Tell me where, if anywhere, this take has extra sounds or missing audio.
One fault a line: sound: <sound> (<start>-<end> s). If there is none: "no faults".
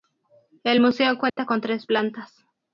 sound: dropout (1.3-1.4 s)